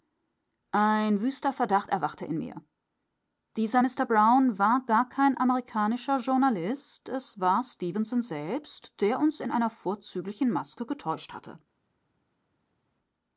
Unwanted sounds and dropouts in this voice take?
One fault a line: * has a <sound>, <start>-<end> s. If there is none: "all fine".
all fine